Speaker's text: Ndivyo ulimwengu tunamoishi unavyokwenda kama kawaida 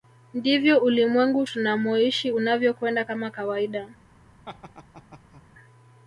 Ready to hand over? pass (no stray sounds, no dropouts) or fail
fail